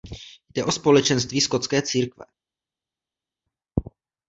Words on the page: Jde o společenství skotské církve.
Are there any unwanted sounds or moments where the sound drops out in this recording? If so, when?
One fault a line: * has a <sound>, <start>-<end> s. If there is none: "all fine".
all fine